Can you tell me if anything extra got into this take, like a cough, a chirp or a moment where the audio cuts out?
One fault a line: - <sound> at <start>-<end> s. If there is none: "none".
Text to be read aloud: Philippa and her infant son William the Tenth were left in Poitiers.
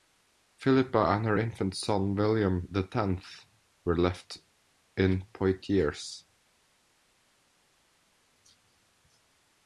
none